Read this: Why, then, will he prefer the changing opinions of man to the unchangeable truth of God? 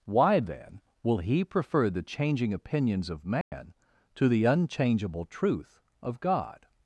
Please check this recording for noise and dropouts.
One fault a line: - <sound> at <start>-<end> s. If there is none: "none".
- dropout at 3.4-3.5 s